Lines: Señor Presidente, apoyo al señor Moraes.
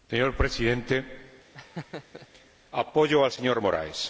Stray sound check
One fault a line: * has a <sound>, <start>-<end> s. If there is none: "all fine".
* has a laugh, 1.5-2.3 s